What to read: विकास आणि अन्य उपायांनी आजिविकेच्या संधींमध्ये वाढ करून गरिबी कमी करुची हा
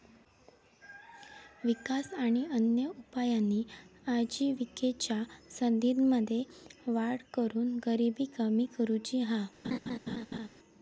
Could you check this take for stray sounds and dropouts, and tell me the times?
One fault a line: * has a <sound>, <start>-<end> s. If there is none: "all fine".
* has a laugh, 9.6-10.5 s